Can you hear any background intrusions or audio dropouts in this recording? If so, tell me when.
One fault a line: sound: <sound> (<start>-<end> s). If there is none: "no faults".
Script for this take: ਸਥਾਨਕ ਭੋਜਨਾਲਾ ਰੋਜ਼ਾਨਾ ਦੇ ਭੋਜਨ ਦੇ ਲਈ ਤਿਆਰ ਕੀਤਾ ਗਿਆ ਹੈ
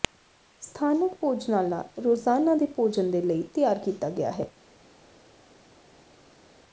no faults